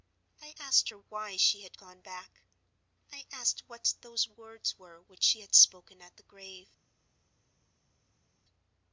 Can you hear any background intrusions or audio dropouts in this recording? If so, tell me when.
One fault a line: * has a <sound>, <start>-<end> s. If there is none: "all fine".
all fine